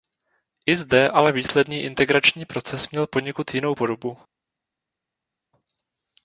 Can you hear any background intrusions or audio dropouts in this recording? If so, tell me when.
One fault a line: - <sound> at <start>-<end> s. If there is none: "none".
none